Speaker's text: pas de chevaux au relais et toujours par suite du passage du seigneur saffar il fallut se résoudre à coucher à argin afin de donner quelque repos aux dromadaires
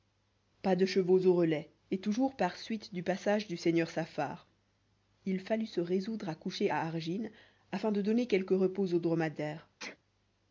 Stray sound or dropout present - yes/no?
yes